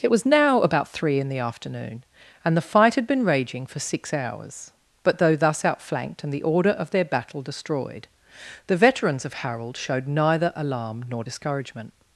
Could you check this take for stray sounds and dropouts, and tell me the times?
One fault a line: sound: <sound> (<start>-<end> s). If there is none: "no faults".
no faults